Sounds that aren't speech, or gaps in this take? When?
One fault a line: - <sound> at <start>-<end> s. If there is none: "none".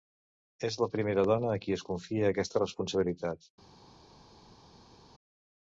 none